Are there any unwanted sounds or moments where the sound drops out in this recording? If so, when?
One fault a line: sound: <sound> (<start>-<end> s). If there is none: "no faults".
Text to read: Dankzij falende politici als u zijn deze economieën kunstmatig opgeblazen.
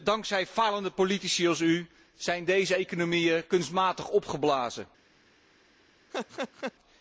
sound: laugh (6.1-6.7 s)